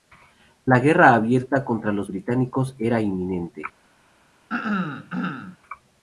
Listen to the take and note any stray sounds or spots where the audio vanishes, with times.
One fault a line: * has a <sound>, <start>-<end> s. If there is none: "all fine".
* has a throat clearing, 4.5-5.6 s